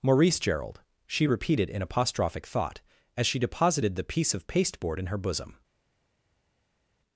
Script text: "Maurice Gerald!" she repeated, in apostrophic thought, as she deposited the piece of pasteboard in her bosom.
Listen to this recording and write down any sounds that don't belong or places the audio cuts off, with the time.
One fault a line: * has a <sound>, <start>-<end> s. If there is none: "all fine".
all fine